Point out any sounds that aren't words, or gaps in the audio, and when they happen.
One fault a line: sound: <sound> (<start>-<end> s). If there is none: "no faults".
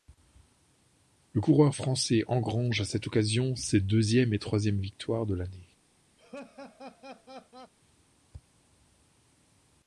sound: laugh (6.2-7.7 s)